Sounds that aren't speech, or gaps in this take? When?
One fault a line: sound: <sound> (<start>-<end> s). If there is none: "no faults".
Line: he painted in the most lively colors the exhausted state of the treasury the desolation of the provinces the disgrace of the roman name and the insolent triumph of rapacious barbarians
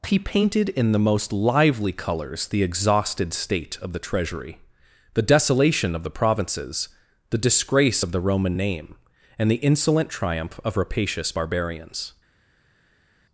no faults